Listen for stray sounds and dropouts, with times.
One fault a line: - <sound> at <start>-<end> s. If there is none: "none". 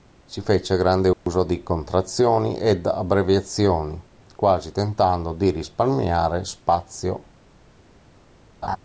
- dropout at 1.1-1.3 s
- laugh at 8.6-8.8 s